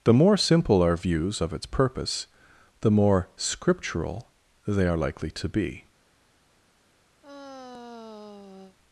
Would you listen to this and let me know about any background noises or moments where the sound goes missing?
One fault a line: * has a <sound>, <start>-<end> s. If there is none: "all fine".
* has a sigh, 7.2-8.8 s